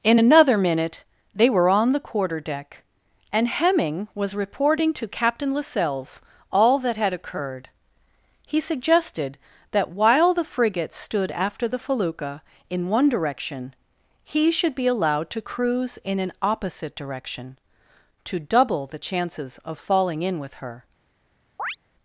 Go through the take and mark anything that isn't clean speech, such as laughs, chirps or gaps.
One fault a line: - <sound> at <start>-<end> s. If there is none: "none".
- chirp at 21.6-21.8 s